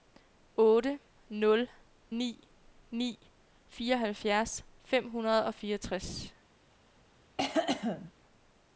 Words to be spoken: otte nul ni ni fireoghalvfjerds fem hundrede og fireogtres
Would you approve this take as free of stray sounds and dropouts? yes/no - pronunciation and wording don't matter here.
no